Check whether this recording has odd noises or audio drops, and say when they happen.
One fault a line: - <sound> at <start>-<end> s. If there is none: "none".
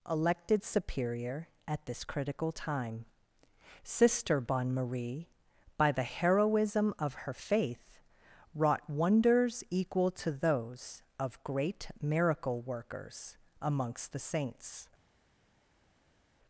none